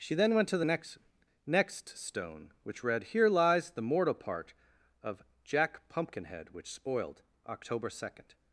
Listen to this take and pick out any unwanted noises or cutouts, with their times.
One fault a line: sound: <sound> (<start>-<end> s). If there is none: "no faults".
no faults